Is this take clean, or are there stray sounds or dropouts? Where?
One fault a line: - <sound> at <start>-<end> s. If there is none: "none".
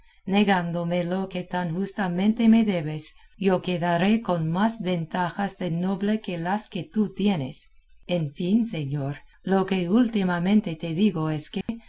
- dropout at 11.6-11.7 s